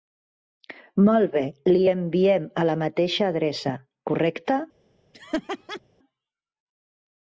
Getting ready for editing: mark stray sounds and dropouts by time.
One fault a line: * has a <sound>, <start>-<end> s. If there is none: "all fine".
* has a laugh, 5.1-5.8 s